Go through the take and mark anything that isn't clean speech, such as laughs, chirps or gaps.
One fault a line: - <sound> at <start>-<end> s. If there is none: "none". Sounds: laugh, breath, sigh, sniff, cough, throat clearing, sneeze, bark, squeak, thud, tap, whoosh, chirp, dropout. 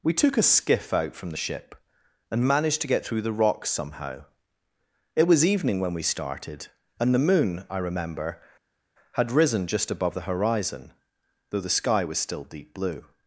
none